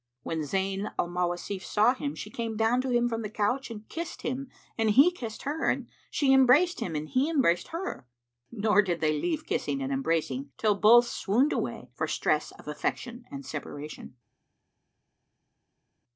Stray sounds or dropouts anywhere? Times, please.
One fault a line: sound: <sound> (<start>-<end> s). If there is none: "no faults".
no faults